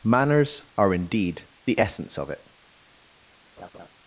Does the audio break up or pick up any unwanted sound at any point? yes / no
yes